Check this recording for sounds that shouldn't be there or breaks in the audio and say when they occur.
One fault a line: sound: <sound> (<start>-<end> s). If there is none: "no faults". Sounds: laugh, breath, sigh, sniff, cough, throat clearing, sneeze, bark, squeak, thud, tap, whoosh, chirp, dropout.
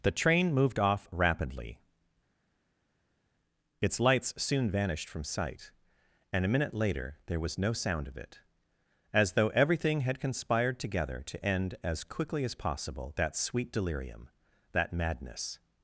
no faults